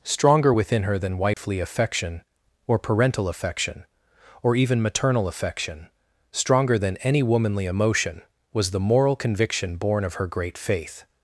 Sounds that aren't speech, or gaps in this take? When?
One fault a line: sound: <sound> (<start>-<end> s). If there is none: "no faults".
sound: dropout (1.3-1.4 s)